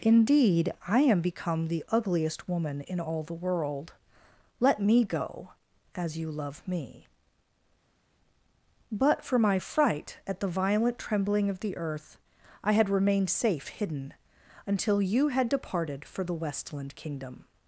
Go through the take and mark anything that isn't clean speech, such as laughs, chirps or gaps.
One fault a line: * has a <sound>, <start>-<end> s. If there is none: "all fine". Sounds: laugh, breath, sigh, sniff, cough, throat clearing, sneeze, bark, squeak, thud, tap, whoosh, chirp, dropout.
all fine